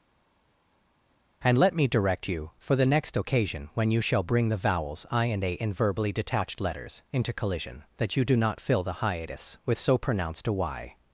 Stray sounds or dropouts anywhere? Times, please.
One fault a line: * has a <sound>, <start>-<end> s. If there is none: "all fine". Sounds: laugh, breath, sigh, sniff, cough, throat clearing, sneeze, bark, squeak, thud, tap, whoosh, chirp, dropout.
all fine